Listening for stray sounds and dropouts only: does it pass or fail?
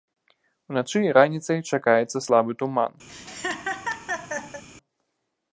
fail